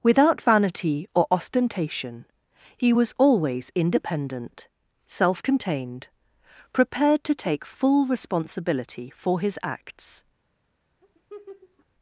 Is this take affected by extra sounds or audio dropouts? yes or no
yes